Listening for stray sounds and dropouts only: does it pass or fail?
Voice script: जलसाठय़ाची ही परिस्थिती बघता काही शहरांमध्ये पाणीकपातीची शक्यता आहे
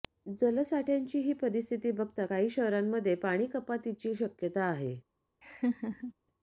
fail